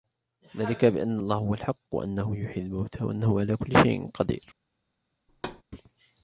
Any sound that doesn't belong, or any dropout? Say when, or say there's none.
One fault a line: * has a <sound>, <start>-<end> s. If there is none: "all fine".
* has a thud, 5.3-5.6 s